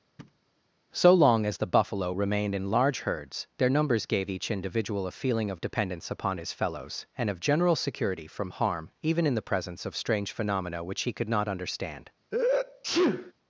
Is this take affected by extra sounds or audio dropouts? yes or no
yes